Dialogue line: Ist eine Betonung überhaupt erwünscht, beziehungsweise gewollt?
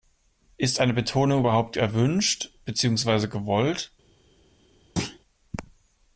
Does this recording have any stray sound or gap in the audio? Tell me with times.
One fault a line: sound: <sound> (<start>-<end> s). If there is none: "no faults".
sound: thud (5.0-5.2 s)